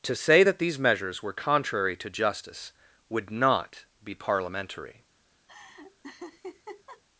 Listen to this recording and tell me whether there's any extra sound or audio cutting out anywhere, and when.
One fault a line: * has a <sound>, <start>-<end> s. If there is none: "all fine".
* has a laugh, 5.5-7.0 s